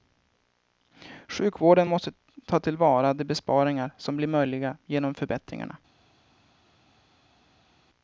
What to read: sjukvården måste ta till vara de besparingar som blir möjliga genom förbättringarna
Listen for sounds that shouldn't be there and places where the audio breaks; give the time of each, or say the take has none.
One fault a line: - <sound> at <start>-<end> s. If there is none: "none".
none